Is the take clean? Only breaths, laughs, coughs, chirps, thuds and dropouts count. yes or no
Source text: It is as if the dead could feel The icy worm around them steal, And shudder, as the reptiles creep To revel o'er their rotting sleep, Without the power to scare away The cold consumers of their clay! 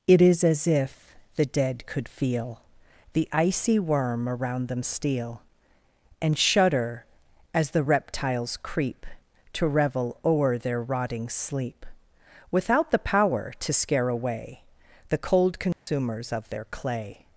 no